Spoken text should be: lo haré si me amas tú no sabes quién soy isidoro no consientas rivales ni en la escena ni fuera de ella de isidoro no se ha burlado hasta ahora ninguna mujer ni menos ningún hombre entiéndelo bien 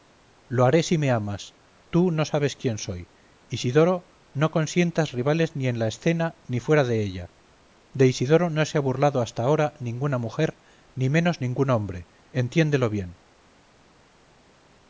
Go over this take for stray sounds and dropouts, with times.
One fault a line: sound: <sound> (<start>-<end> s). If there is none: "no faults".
no faults